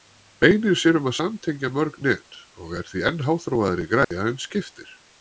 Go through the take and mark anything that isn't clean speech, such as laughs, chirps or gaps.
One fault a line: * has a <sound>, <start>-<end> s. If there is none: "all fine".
* has a dropout, 4.0-4.1 s